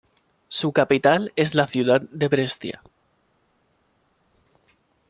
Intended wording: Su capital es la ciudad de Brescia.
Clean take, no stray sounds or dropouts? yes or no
yes